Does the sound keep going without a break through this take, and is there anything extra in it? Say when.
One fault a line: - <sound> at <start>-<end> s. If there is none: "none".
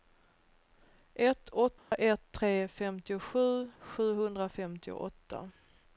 - dropout at 1.8-1.9 s